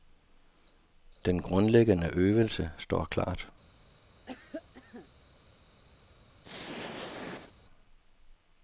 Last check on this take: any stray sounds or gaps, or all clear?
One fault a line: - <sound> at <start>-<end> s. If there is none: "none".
- cough at 4.3-5.1 s
- throat clearing at 6.4-7.5 s